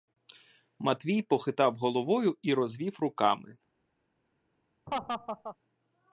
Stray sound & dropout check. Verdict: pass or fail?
fail